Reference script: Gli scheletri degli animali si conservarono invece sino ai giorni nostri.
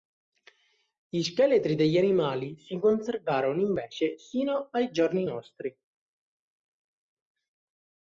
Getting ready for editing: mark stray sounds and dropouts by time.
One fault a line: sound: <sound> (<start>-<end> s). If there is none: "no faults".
no faults